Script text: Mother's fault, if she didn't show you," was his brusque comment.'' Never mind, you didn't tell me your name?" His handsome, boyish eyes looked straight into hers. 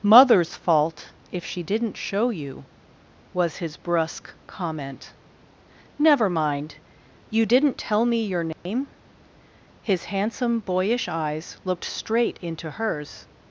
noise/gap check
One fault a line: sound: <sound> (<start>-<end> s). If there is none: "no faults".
sound: dropout (8.5-8.7 s)